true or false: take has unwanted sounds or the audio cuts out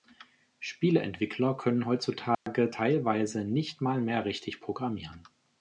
true